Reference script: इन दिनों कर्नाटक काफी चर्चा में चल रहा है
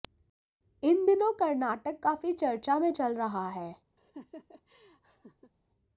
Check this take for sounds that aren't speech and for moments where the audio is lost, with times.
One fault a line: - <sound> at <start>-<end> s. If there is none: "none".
- laugh at 4.0-5.5 s